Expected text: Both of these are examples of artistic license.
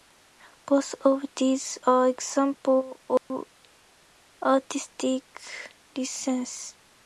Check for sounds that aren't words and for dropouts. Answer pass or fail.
fail